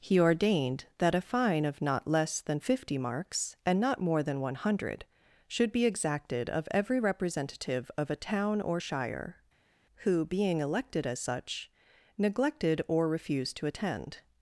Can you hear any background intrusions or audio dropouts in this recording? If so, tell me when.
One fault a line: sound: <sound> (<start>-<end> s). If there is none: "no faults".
no faults